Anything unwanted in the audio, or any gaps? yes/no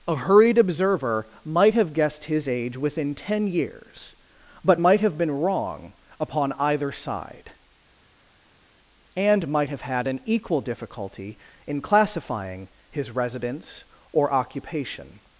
no